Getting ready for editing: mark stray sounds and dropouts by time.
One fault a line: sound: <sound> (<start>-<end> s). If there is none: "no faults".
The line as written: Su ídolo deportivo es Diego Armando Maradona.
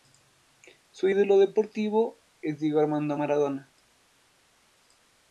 no faults